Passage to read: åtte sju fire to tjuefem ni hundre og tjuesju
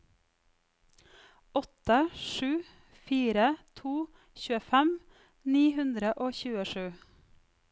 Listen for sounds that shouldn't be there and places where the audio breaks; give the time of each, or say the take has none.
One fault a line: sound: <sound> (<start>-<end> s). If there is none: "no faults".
no faults